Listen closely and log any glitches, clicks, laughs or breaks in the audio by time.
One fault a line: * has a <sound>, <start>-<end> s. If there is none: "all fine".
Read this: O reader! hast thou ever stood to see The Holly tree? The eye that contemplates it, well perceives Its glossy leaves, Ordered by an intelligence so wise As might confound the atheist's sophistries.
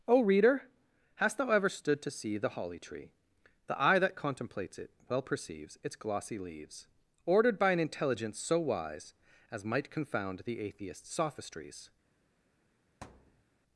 * has a thud, 13.0-13.4 s